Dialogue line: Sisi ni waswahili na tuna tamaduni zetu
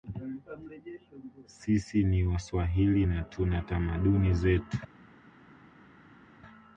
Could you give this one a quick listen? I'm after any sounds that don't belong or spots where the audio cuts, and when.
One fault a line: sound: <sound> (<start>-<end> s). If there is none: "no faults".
no faults